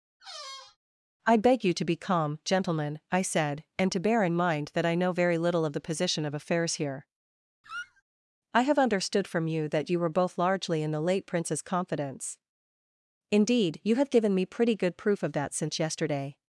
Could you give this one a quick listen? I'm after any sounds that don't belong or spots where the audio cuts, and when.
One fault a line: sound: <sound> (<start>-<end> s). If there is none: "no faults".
sound: squeak (0.2-0.8 s)
sound: squeak (7.6-8.0 s)